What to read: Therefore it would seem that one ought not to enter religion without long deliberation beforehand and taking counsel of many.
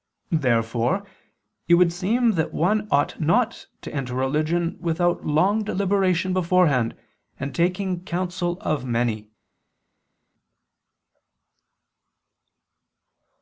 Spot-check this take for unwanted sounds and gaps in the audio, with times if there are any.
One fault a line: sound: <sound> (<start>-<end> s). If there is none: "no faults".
no faults